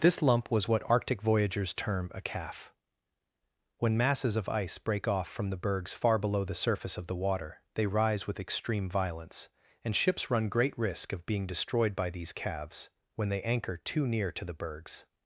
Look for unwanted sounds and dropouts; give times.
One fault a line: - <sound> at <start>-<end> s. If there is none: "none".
none